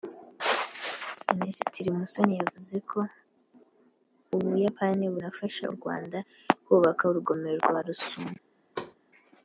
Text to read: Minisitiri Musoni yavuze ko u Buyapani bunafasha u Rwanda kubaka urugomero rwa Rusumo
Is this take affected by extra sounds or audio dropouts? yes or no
yes